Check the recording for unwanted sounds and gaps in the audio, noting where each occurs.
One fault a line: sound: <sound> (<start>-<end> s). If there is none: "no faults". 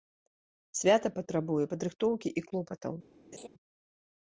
sound: laugh (3.3-3.5 s)